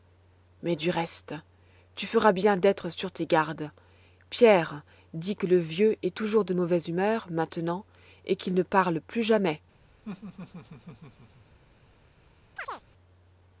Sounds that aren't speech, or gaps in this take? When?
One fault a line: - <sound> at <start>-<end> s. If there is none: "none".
- laugh at 10.0-11.6 s
- chirp at 12.6-12.8 s